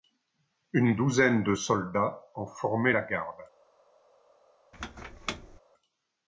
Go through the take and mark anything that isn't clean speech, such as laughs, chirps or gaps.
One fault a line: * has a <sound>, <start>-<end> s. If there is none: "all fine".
* has a squeak, 4.7-5.6 s